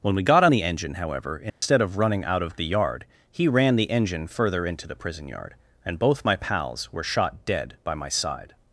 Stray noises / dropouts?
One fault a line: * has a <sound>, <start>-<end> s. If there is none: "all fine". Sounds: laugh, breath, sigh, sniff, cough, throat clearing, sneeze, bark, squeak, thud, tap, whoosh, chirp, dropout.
* has a dropout, 1.5-1.6 s